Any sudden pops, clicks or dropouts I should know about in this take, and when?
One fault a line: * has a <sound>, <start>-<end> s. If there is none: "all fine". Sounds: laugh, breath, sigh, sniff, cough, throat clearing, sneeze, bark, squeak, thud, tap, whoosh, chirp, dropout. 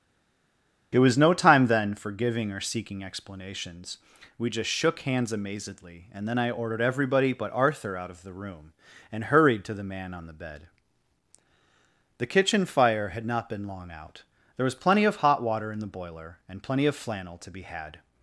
all fine